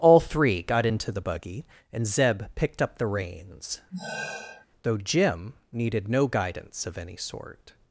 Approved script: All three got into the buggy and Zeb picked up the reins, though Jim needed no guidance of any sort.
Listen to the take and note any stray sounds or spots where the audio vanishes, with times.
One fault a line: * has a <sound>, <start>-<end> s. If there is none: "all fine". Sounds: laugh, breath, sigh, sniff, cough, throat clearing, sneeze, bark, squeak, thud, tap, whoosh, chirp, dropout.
* has a sigh, 3.9-4.7 s